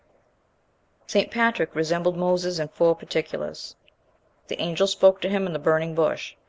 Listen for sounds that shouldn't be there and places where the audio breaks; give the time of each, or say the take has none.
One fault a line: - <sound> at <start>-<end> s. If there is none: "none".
none